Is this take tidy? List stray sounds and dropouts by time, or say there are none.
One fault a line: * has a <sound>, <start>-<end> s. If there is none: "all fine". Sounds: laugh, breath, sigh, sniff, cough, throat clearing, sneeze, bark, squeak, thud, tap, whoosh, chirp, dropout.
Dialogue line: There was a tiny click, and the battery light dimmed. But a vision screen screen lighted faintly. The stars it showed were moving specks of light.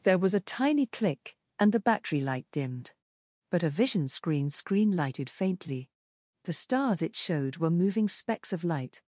all fine